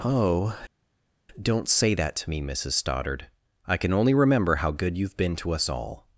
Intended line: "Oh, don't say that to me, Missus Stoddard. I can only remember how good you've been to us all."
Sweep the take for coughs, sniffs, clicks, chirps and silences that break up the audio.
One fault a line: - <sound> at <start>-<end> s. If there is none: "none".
none